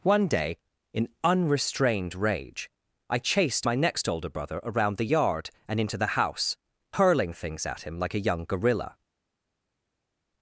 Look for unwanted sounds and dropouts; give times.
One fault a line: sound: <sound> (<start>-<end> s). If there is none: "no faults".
no faults